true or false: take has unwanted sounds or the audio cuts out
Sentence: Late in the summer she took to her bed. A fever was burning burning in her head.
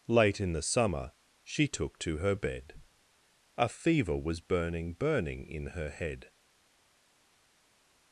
false